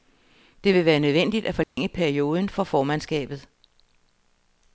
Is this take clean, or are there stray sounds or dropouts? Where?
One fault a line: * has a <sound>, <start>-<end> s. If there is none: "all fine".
* has a dropout, 1.6-1.8 s